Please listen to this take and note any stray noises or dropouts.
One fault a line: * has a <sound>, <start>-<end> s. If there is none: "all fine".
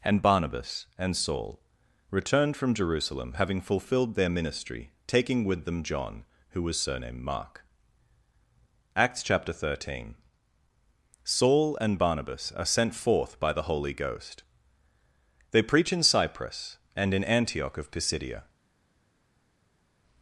all fine